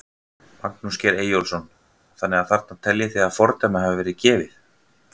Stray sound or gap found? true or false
false